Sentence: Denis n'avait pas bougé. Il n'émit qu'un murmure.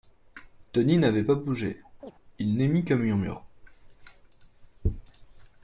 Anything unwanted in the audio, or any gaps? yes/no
yes